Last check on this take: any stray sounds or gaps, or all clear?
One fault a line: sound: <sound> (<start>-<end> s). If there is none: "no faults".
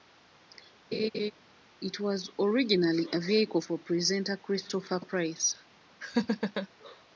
sound: laugh (0.9-1.3 s)
sound: laugh (6.0-6.7 s)